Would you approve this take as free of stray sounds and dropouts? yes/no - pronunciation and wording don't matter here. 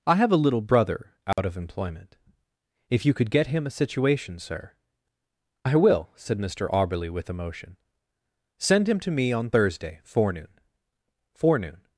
no